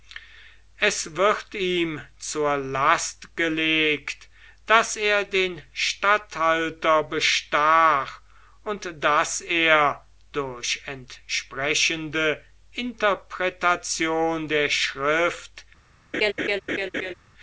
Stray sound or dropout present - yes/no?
yes